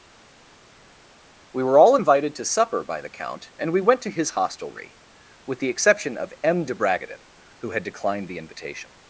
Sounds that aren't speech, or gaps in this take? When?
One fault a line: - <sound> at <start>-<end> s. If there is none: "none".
none